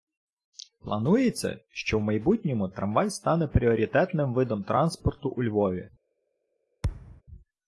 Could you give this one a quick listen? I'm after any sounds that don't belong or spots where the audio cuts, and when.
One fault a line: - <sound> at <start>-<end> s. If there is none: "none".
- thud at 6.8-7.2 s